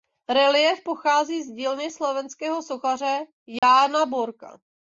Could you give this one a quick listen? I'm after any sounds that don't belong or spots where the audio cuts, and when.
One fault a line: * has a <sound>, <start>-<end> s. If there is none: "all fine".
* has a dropout, 3.6-3.6 s